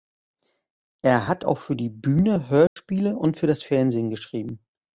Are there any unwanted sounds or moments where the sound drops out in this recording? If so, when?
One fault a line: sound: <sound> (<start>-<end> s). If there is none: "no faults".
sound: dropout (2.7-2.8 s)